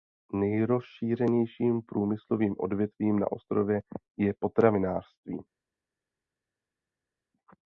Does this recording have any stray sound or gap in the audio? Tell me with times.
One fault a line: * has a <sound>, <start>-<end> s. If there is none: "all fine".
all fine